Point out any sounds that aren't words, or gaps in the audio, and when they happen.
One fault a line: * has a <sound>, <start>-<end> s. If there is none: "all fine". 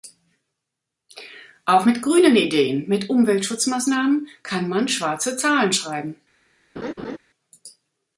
* has a laugh, 6.8-7.2 s